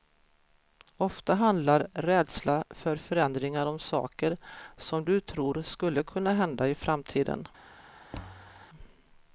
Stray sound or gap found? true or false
true